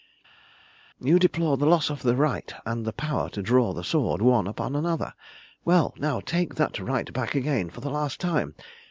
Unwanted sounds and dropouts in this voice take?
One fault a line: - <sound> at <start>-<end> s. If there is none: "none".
none